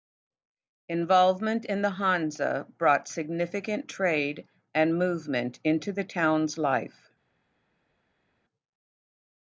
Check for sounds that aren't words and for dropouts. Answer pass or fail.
pass